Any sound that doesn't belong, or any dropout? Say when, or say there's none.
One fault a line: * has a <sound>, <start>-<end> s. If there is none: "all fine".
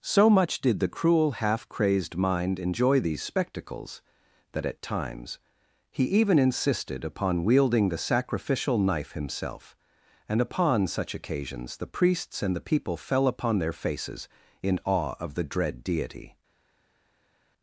all fine